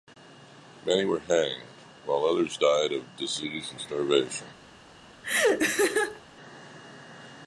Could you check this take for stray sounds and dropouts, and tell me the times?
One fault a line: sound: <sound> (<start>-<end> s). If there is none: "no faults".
sound: laugh (5.2-6.2 s)